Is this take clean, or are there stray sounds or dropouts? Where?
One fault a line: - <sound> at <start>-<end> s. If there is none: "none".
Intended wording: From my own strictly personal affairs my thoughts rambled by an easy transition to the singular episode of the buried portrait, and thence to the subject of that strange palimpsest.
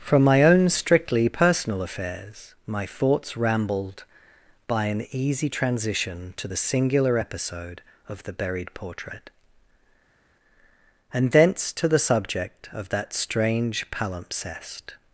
none